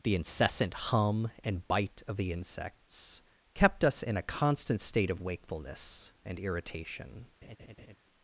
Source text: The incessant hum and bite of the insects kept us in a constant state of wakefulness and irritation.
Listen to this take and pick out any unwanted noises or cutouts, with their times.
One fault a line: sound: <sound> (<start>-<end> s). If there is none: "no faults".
sound: laugh (7.4-8.0 s)